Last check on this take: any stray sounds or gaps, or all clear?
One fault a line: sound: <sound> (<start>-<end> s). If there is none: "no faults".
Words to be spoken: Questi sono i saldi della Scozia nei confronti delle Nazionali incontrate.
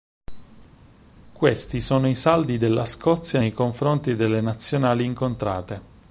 no faults